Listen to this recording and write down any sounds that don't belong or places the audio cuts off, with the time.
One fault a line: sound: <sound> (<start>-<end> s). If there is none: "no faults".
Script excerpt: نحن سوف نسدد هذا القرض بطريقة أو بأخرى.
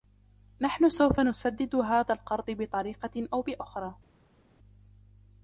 no faults